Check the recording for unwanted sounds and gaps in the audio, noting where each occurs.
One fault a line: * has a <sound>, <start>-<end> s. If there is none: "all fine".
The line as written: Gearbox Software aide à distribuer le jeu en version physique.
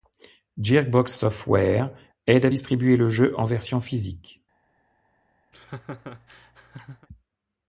* has a laugh, 5.5-7.1 s